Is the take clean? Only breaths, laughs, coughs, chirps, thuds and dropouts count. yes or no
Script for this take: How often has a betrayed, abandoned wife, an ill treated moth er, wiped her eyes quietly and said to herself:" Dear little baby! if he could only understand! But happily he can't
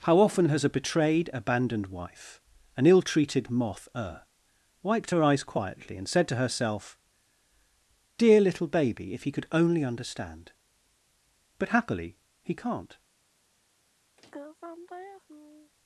no